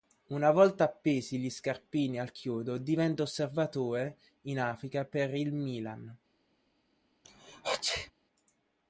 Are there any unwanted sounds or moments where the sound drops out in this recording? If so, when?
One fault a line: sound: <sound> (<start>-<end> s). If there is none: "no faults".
sound: sneeze (7.2-8.1 s)